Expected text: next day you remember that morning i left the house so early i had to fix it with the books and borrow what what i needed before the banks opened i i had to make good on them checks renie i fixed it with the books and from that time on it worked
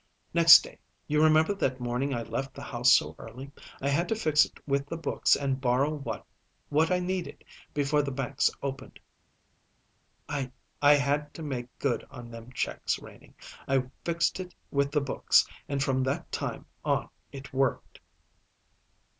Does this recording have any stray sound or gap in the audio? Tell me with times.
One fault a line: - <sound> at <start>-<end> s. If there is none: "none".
none